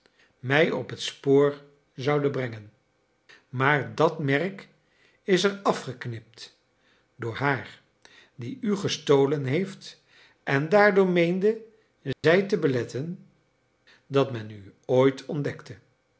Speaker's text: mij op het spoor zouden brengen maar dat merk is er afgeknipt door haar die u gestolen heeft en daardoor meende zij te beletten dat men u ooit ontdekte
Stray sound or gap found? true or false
true